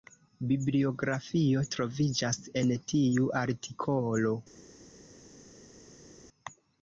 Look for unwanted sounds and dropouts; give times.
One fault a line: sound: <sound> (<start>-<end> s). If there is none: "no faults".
no faults